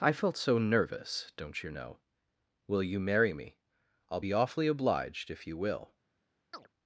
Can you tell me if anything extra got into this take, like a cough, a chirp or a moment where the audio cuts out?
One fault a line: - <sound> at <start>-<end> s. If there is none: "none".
- chirp at 6.5-6.7 s